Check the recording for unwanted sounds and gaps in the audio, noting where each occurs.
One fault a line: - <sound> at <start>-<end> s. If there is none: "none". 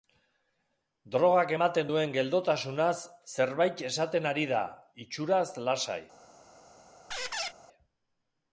- squeak at 7.1-7.5 s